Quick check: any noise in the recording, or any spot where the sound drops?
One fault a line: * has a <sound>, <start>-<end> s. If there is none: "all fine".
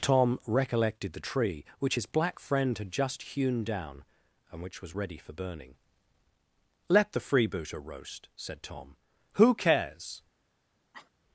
* has a cough, 10.9-11.1 s